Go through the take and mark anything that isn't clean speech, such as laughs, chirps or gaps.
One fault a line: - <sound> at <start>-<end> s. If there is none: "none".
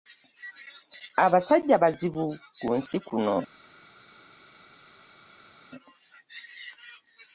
none